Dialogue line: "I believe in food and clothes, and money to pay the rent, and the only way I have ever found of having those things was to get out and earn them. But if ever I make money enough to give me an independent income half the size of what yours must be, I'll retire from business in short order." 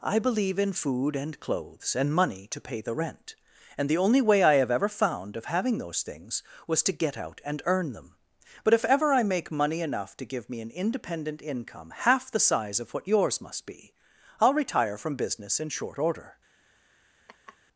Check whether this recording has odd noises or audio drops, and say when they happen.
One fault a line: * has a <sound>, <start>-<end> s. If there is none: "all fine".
* has a laugh, 17.3-17.6 s